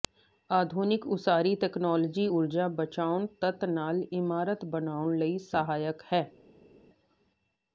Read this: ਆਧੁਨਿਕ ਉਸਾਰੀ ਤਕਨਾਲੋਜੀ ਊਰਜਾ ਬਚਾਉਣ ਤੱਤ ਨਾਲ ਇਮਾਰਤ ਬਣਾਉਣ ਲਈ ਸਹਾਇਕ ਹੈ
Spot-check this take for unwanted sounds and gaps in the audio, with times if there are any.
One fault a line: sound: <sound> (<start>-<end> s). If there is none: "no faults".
no faults